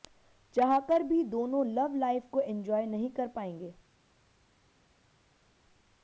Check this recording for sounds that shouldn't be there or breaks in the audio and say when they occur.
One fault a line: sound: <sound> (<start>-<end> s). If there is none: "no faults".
no faults